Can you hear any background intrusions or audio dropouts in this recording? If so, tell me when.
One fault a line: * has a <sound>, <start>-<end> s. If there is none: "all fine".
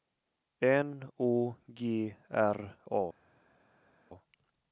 all fine